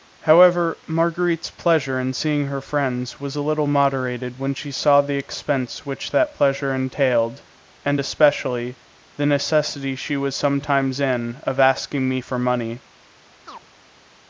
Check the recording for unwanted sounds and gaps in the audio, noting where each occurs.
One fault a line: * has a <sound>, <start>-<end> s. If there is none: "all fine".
* has a chirp, 13.5-13.7 s